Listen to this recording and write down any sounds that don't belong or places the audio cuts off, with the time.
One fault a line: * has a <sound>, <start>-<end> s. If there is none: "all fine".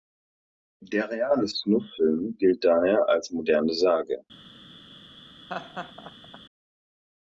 * has a laugh, 5.5-6.4 s